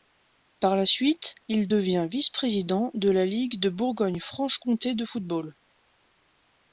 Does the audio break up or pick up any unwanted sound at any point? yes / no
no